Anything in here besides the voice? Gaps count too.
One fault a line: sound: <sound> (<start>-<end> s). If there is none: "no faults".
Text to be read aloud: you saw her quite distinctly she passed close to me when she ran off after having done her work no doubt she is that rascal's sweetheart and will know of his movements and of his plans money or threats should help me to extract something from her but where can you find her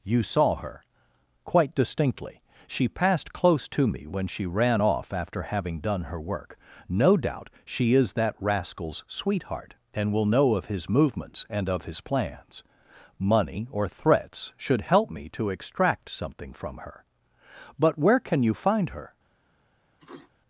sound: sneeze (20.0-20.3 s)